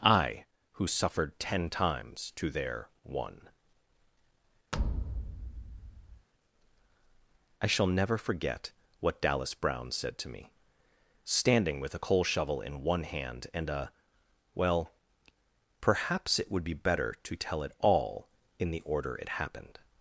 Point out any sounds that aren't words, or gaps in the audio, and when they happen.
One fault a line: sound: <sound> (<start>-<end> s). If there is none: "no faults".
sound: thud (4.7-6.3 s)